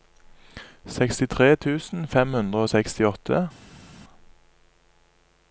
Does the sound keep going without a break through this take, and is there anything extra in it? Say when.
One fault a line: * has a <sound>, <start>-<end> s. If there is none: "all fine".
all fine